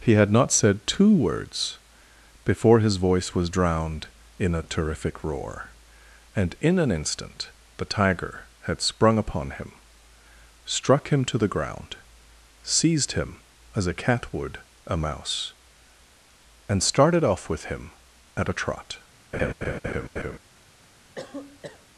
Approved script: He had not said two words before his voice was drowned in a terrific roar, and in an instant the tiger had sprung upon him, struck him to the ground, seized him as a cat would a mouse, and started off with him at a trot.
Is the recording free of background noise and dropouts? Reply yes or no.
no